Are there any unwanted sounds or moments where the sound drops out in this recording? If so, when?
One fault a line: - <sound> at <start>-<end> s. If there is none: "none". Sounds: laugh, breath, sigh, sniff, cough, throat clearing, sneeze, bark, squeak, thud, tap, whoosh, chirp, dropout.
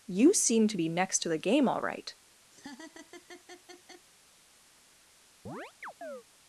- laugh at 2.5-4.1 s
- chirp at 5.5-6.2 s